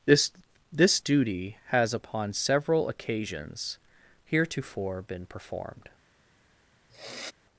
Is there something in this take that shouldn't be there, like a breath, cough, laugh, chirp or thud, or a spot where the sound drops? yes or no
yes